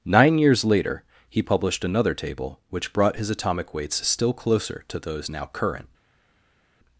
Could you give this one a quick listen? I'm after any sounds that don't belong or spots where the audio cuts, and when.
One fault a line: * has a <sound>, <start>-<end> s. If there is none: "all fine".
all fine